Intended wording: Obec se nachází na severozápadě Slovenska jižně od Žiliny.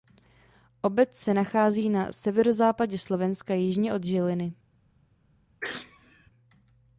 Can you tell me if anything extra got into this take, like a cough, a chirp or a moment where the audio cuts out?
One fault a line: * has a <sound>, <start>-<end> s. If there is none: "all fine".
* has a sneeze, 5.6-6.3 s